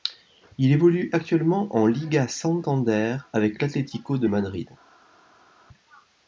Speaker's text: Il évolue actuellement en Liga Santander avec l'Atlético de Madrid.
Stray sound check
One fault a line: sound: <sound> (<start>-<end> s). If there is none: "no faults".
no faults